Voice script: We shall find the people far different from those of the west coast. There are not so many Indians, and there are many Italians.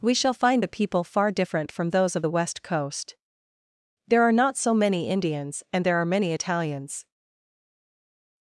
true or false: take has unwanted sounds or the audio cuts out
false